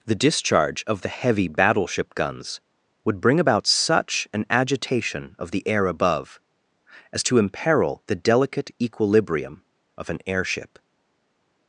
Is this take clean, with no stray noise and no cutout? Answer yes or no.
yes